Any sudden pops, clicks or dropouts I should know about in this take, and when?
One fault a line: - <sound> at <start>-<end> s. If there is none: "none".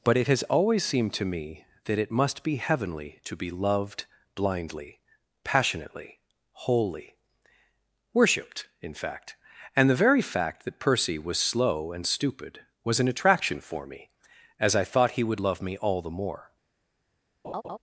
- laugh at 17.4-17.8 s